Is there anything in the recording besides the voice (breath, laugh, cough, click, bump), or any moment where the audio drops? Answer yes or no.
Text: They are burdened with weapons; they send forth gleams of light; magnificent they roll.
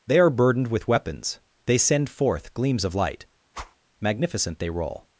yes